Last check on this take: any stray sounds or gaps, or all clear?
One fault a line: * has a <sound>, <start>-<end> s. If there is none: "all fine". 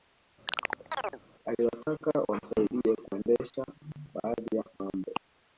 * has a chirp, 0.5-1.2 s